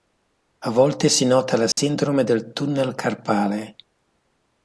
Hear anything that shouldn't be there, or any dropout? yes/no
yes